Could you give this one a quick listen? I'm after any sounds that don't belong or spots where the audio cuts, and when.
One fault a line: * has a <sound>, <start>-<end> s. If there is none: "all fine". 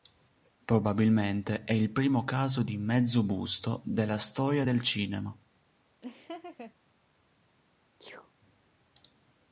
* has a laugh, 6.0-6.7 s
* has a sneeze, 8.0-8.3 s